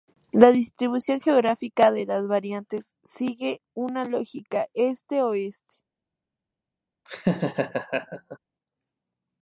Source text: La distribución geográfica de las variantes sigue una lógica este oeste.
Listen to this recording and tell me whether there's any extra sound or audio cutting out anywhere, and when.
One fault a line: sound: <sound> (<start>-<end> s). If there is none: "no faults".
sound: laugh (7.1-8.4 s)